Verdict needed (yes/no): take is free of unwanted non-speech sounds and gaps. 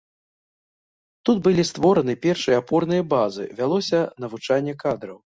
yes